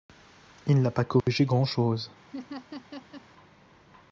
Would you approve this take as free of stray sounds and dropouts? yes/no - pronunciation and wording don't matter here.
no